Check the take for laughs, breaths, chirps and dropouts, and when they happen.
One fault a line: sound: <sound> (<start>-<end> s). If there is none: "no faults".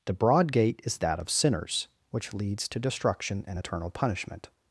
no faults